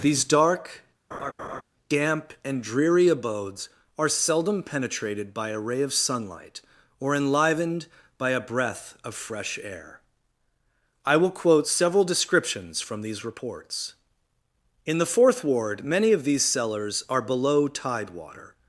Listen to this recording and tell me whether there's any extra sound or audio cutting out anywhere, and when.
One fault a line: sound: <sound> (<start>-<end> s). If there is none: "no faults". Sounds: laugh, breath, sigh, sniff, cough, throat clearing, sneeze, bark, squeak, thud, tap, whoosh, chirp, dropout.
sound: laugh (1.1-1.6 s)